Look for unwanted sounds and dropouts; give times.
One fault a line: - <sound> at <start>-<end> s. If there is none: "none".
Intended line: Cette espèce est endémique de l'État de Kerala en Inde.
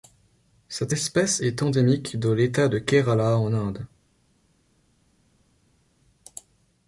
none